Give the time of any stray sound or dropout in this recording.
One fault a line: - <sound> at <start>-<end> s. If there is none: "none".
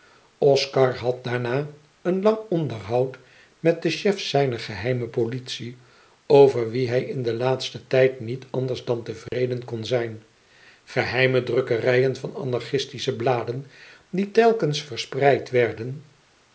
- dropout at 9.3-9.3 s